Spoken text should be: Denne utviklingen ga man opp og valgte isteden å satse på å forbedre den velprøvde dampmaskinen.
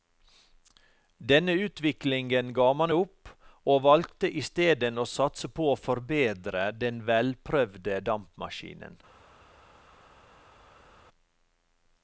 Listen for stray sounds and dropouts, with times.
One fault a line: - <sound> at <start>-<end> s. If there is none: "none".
none